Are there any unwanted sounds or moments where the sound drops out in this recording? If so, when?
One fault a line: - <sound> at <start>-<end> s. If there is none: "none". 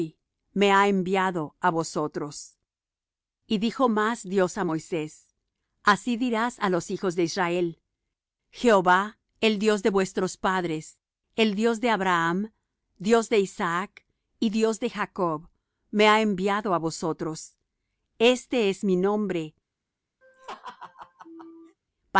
- laugh at 20.2-21.8 s